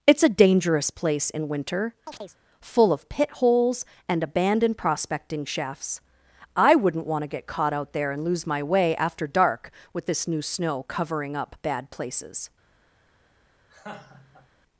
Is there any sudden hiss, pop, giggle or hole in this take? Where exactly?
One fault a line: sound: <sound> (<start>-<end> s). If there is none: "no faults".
sound: chirp (2.1-2.4 s)
sound: laugh (13.7-14.5 s)